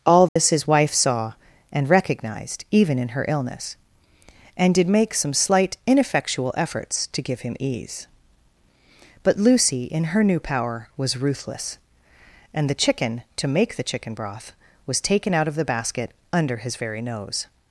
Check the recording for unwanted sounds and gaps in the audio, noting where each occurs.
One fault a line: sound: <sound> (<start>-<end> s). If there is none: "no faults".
sound: dropout (0.3-0.4 s)